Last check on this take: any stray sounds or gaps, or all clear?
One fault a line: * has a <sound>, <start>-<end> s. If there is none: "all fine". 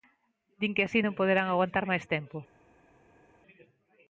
all fine